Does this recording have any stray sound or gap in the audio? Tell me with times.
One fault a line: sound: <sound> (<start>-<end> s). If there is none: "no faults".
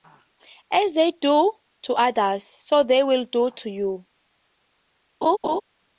sound: laugh (5.2-5.6 s)